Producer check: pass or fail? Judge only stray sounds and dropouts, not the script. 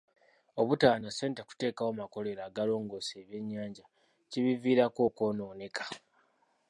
pass